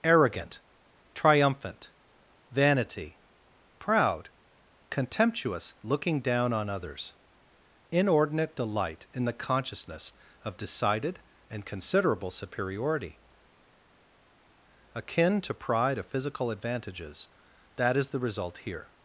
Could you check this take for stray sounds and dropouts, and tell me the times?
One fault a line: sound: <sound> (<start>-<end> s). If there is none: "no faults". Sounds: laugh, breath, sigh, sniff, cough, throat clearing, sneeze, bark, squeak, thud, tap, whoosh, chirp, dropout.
no faults